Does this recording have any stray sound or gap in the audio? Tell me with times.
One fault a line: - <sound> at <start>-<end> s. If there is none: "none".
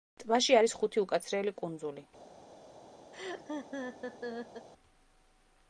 - laugh at 3.1-4.7 s